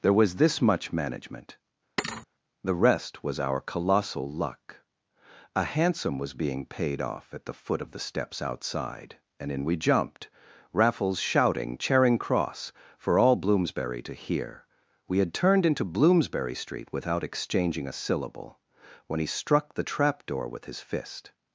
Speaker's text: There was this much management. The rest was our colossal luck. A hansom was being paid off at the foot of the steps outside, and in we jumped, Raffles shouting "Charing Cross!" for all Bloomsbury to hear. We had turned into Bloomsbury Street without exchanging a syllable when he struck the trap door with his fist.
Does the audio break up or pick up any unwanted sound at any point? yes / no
yes